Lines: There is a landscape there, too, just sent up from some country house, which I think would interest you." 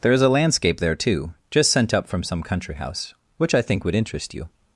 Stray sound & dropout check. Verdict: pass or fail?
pass